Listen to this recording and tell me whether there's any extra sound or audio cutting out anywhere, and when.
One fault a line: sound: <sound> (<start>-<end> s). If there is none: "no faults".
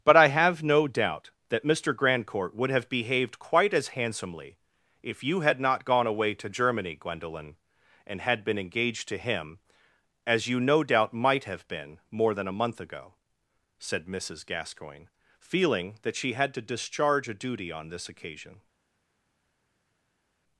no faults